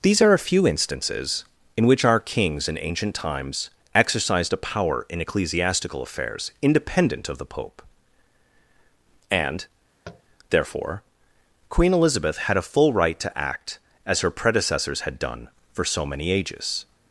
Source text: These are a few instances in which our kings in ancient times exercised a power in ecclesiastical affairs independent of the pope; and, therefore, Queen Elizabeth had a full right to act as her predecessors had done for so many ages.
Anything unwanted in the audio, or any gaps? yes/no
yes